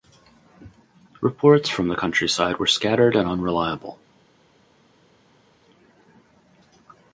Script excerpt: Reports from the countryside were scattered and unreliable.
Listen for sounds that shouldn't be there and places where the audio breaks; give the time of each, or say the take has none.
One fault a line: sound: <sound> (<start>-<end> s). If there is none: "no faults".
no faults